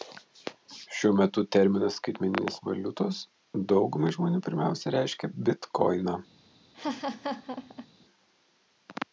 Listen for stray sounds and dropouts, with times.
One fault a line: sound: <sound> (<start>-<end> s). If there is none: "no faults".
sound: laugh (6.7-7.9 s)